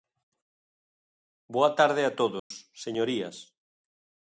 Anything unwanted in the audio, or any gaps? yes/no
yes